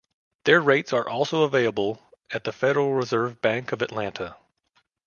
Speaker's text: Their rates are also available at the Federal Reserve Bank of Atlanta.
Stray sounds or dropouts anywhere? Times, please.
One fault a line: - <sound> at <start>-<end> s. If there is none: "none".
none